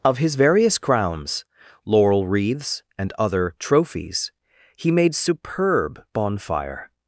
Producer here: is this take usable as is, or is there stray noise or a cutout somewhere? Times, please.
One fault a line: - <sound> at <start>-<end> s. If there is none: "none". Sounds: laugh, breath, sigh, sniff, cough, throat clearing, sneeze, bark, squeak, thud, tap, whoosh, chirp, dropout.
none